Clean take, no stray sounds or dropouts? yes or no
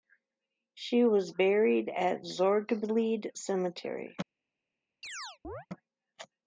no